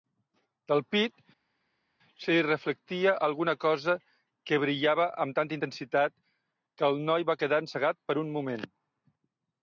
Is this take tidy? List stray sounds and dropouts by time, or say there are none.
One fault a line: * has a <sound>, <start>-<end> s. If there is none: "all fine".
all fine